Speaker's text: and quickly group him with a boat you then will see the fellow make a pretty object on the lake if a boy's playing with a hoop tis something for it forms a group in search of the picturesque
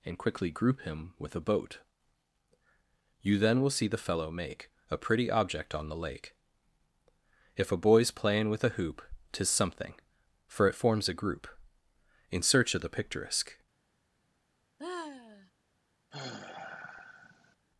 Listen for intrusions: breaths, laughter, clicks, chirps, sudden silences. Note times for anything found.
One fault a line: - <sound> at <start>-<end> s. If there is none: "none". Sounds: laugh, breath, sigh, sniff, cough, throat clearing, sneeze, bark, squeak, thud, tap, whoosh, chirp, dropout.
- sigh at 14.8-15.5 s
- sigh at 16.1-17.6 s